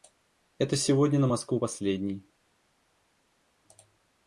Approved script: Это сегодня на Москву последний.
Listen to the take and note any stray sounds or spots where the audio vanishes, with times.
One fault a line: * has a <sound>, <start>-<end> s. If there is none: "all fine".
all fine